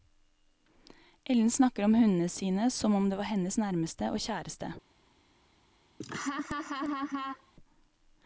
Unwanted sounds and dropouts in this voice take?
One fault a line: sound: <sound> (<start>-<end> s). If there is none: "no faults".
sound: laugh (6.0-7.5 s)